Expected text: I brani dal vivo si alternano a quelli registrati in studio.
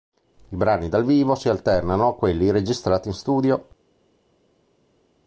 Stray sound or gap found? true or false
false